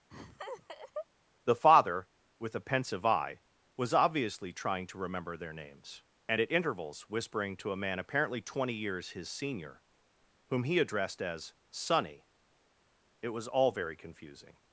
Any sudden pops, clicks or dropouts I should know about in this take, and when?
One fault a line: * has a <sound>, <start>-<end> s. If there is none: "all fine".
* has a laugh, 0.1-1.1 s